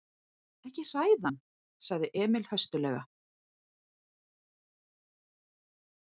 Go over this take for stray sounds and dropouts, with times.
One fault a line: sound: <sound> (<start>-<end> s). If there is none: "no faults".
no faults